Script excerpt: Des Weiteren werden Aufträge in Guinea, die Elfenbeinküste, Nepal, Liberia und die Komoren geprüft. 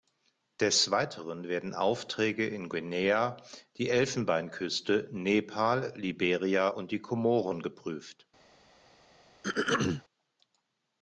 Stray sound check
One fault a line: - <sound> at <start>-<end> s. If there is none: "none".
- throat clearing at 9.4-10.0 s